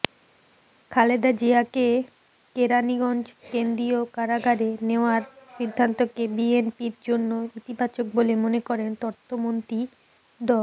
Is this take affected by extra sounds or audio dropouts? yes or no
no